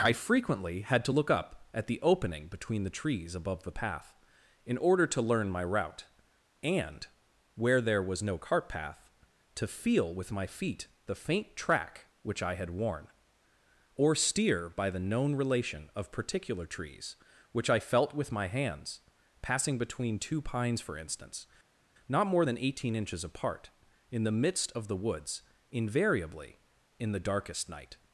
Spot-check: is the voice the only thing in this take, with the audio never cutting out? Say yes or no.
yes